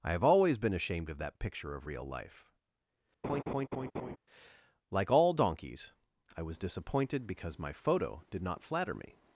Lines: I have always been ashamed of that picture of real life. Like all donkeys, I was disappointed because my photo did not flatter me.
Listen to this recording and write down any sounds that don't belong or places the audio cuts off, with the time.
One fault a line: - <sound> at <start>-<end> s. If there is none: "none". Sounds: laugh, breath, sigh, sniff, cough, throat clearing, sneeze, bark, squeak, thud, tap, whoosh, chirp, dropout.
- laugh at 3.2-4.2 s